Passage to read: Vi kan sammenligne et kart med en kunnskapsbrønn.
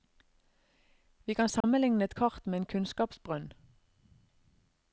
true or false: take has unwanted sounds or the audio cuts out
true